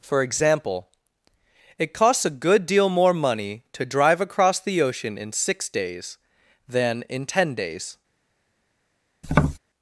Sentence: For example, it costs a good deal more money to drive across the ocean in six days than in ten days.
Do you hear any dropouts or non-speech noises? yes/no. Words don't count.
yes